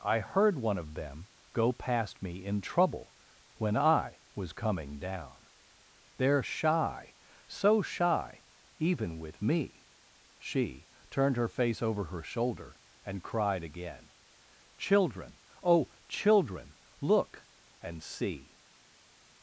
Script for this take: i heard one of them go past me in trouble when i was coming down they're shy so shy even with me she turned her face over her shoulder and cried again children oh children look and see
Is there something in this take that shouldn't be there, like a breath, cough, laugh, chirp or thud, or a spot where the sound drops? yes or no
no